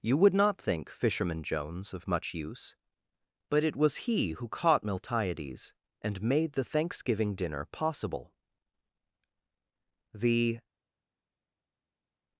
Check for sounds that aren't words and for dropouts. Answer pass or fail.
pass